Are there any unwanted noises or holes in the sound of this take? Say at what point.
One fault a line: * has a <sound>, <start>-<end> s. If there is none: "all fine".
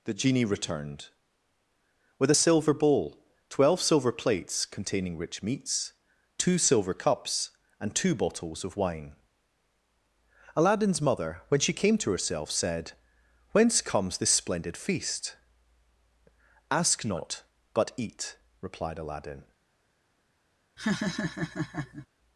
* has a laugh, 20.8-22.1 s